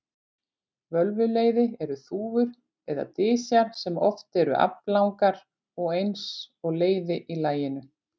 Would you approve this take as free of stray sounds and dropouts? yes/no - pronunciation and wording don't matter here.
yes